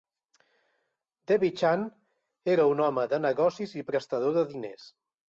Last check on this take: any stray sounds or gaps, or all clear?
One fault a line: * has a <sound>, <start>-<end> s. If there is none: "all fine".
all fine